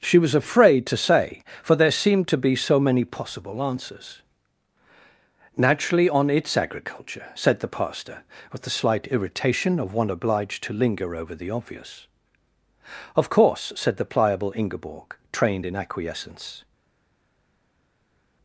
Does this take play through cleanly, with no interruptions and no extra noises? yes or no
yes